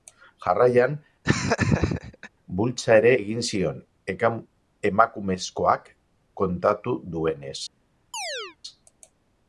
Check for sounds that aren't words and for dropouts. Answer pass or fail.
fail